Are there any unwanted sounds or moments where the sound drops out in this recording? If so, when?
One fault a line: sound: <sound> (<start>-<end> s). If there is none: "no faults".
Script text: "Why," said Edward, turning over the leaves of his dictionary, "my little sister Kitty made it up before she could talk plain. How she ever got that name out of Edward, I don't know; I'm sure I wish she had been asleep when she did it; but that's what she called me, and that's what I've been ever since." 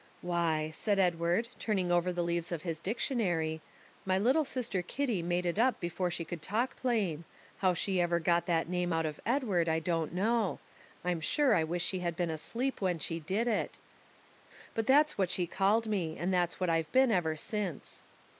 no faults